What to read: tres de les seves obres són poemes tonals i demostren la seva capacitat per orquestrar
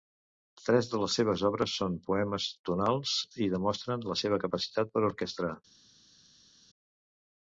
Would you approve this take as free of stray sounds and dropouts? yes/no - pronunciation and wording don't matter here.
yes